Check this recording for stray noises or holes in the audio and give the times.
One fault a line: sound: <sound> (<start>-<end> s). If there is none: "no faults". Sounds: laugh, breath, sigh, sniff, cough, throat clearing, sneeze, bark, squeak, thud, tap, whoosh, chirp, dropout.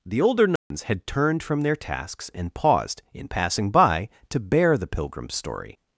sound: dropout (0.6-0.7 s)